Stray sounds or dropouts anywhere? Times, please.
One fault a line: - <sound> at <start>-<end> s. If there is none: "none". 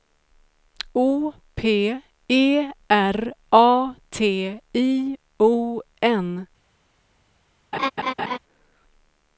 - laugh at 7.7-8.4 s